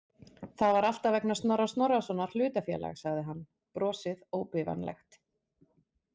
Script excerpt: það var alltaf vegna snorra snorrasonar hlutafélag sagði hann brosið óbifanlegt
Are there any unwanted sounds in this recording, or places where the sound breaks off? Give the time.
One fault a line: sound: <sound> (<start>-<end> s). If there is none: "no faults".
no faults